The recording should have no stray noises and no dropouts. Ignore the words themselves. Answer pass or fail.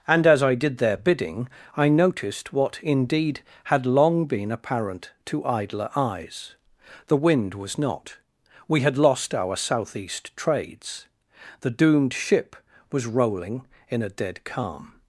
pass